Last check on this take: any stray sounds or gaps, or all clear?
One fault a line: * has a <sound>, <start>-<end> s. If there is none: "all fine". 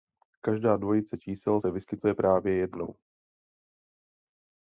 all fine